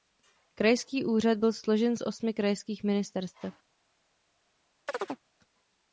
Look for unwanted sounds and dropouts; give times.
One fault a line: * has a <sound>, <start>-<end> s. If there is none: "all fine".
* has a chirp, 4.9-5.2 s